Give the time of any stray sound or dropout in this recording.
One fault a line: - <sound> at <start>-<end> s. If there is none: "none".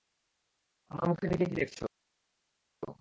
none